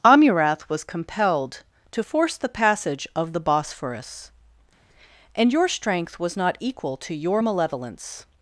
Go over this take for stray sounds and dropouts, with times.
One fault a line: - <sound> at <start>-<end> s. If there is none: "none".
none